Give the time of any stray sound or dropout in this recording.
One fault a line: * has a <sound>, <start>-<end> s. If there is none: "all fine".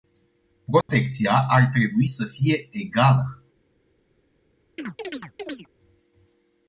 * has a dropout, 0.8-0.9 s
* has a chirp, 4.8-5.7 s